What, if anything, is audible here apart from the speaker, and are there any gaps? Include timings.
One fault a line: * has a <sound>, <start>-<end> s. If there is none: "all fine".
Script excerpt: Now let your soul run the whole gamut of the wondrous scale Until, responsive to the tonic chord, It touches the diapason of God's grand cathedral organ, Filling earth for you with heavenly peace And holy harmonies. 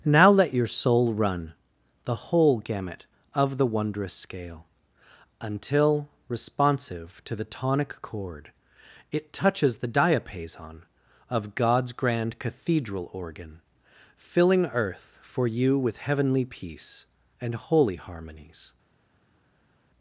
all fine